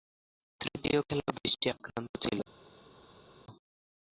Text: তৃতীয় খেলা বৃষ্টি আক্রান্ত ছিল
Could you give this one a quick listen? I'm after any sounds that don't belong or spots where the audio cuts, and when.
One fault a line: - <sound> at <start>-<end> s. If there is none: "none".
none